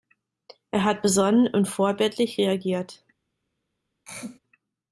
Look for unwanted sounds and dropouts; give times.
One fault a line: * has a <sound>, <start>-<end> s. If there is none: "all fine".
* has a throat clearing, 4.1-4.4 s